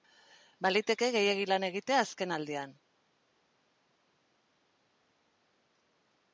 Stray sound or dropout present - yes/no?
no